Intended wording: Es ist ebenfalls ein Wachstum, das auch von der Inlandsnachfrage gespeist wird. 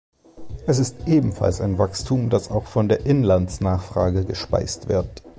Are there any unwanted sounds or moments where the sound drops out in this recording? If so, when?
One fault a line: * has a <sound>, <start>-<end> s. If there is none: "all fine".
all fine